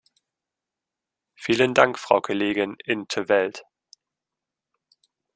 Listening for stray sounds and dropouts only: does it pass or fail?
pass